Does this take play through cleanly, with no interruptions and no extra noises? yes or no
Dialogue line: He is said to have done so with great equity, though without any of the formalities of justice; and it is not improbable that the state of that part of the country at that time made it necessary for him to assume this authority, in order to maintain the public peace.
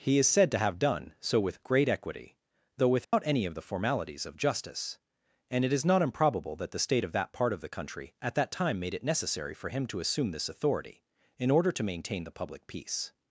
no